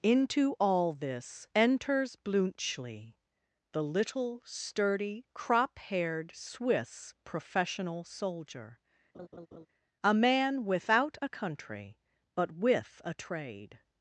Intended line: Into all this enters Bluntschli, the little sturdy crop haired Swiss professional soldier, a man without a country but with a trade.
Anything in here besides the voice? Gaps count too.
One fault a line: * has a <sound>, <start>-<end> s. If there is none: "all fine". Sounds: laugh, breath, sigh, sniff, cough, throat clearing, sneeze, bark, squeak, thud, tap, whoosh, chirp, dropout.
* has a laugh, 9.1-9.7 s